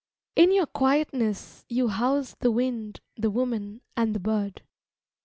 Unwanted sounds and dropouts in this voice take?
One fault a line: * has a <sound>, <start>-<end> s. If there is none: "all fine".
all fine